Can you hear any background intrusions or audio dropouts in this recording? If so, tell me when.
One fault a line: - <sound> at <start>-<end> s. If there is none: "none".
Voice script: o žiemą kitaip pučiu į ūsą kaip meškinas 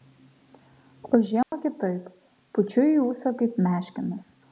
- dropout at 1.4-1.5 s